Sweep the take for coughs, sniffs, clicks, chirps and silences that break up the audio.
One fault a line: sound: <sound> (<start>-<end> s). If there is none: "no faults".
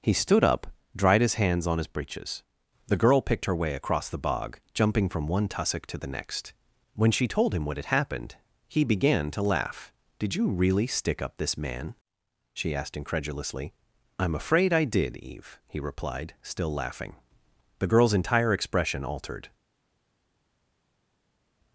no faults